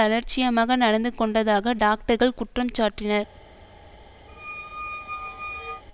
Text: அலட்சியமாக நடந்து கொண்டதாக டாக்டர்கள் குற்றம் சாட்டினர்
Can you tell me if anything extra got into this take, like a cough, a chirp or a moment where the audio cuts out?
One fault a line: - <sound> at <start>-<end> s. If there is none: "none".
- squeak at 4.3-5.8 s